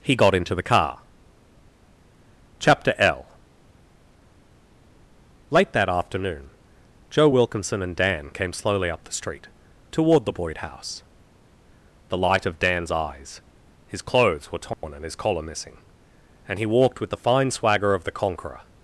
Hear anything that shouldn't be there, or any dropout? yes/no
yes